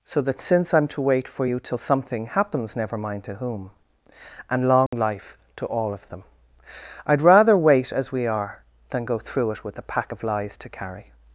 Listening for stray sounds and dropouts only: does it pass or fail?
fail